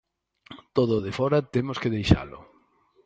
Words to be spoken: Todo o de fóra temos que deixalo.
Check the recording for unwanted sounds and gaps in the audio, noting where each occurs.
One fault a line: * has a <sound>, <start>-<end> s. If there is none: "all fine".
all fine